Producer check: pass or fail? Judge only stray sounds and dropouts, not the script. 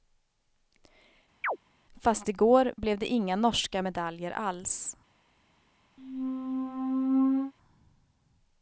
fail